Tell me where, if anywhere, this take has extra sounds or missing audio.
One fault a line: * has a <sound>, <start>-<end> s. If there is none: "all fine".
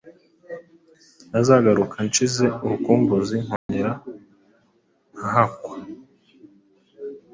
* has a dropout, 3.6-3.7 s